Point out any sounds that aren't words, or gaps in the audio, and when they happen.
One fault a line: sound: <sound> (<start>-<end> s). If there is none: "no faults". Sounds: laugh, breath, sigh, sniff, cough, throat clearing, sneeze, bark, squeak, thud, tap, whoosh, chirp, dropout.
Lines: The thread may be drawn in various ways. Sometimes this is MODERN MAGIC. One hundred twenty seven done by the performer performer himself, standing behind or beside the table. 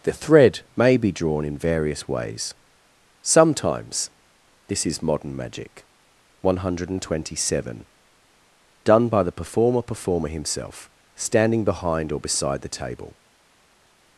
no faults